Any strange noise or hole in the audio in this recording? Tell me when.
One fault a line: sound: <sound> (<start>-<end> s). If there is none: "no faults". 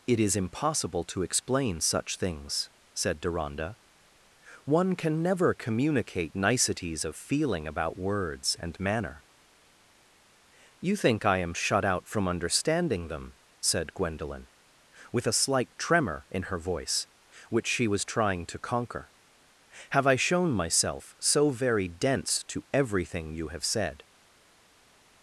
no faults